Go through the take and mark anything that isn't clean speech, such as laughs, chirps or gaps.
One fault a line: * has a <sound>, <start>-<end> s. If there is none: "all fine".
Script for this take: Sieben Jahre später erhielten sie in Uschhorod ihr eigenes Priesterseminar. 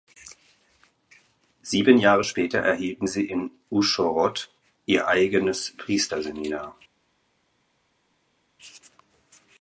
all fine